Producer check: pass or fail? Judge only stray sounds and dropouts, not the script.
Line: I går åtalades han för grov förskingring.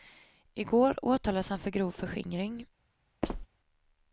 fail